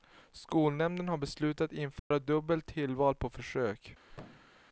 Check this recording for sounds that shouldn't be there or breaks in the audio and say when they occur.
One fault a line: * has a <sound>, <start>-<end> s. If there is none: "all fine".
* has a dropout, 2.0-2.1 s
* has a thud, 4.1-4.6 s